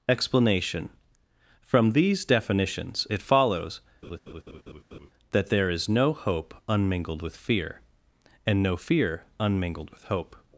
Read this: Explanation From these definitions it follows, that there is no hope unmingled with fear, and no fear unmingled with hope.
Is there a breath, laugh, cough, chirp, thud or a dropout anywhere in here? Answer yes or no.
yes